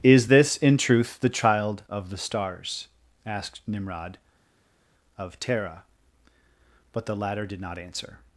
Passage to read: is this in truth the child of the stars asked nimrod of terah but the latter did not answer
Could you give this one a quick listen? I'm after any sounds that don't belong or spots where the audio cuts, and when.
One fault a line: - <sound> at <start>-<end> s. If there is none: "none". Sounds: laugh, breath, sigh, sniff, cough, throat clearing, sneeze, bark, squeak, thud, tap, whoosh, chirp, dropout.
none